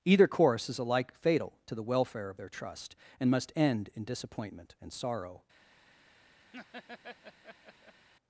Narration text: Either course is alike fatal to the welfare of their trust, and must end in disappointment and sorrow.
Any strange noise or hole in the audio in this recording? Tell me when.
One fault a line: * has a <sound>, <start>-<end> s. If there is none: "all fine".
* has a laugh, 6.5-8.1 s